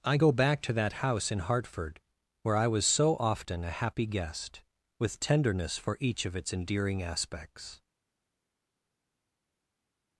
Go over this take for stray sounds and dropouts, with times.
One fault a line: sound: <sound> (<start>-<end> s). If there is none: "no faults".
no faults